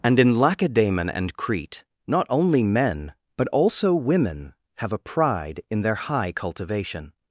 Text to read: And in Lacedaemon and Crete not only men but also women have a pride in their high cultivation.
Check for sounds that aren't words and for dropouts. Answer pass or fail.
pass